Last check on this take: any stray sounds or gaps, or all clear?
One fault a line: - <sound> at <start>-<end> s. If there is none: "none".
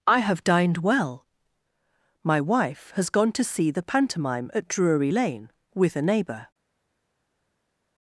none